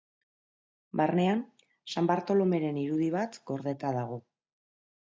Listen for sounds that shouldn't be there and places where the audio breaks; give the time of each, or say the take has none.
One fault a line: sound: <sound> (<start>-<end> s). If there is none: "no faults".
no faults